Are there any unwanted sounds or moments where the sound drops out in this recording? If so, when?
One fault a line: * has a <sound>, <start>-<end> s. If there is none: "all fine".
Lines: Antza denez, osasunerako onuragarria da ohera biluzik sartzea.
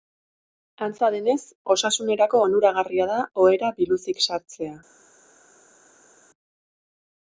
all fine